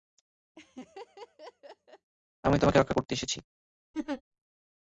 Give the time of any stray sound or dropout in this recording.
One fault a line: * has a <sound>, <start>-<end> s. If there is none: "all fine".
* has a laugh, 0.6-2.1 s
* has a laugh, 3.9-4.2 s